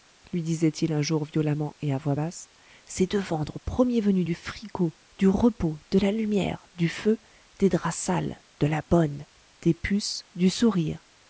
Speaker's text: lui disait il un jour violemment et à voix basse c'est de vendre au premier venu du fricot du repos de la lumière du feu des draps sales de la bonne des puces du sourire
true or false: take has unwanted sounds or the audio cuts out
false